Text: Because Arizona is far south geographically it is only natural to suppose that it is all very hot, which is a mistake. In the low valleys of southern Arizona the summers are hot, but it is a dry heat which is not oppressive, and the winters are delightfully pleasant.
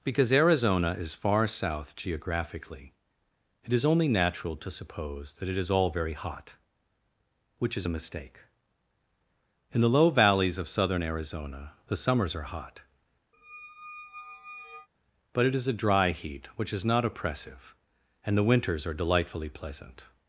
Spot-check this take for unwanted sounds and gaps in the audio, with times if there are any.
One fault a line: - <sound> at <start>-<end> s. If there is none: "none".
- squeak at 13.3-14.9 s